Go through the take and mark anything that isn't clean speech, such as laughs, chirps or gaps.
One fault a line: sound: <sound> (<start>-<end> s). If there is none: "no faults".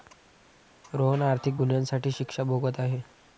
no faults